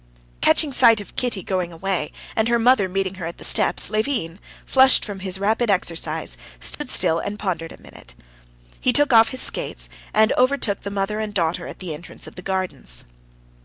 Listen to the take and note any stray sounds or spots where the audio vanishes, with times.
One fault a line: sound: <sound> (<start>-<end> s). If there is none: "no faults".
sound: dropout (6.7-6.8 s)